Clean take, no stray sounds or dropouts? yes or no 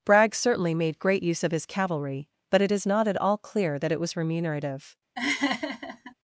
no